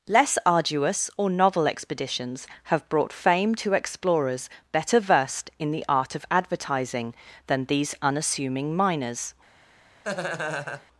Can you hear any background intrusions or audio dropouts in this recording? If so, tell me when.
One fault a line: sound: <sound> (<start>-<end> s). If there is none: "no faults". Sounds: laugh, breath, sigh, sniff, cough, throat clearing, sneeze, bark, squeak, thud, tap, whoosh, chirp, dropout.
sound: laugh (10.0-10.9 s)